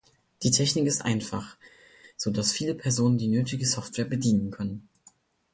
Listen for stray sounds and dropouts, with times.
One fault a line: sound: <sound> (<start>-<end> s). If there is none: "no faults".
no faults